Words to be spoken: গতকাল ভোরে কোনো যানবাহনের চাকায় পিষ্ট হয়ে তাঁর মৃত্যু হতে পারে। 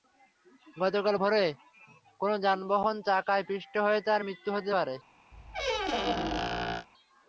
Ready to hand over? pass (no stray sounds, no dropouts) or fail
fail